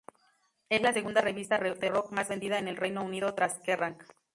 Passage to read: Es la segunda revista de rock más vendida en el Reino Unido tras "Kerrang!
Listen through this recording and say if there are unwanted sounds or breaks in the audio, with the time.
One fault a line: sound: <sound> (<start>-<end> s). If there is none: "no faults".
no faults